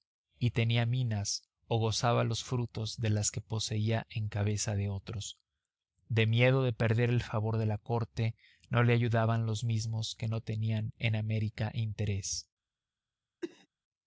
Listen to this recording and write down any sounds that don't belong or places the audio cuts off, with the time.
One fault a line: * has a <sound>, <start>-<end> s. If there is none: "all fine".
* has a cough, 13.4-13.7 s